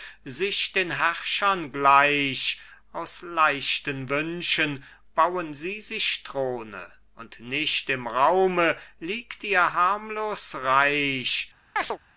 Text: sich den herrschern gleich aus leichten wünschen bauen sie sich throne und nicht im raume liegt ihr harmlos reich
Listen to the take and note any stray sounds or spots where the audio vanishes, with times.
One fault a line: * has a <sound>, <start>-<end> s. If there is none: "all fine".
* has a chirp, 11.8-12.0 s